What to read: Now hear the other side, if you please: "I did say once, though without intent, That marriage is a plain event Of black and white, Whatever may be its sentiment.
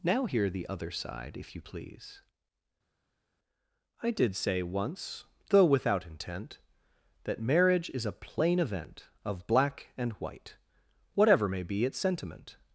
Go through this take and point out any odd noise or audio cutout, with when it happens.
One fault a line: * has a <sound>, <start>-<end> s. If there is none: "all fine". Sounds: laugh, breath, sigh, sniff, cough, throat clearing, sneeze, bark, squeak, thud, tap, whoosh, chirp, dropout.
all fine